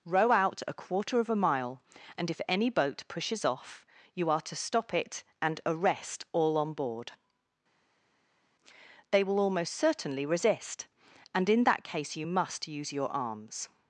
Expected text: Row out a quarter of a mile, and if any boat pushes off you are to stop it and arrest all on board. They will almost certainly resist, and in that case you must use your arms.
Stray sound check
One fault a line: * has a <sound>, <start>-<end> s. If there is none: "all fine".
all fine